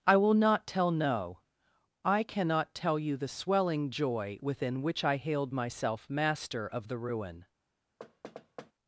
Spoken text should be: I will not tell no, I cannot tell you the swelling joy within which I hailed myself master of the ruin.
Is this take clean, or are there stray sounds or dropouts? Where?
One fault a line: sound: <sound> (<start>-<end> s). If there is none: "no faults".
sound: thud (8.0-8.7 s)